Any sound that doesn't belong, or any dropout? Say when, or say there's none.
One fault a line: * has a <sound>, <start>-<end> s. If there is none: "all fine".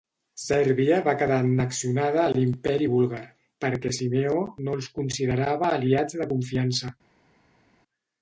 all fine